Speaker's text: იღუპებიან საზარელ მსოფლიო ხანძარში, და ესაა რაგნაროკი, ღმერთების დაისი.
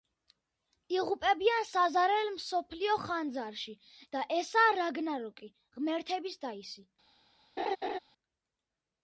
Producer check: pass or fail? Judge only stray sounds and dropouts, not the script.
fail